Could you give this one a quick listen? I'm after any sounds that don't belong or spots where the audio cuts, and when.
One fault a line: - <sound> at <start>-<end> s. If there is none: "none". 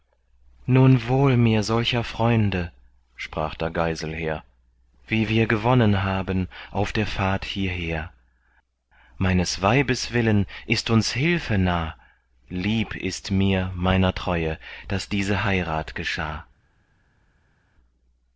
none